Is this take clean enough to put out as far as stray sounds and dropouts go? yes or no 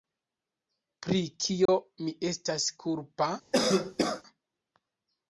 no